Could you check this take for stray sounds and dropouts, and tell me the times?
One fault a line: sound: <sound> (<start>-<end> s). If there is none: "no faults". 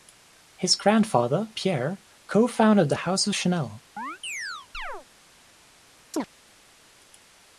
sound: chirp (4.0-5.1 s)
sound: chirp (6.1-6.3 s)